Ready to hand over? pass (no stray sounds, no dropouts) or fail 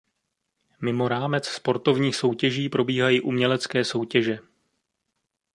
pass